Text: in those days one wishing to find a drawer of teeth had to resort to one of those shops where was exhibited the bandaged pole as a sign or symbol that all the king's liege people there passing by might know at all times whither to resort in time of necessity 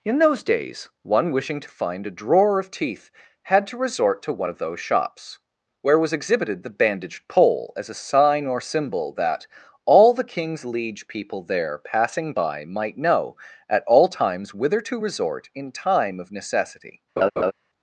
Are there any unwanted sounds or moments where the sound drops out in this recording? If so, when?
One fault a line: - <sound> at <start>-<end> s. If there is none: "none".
- laugh at 17.2-17.5 s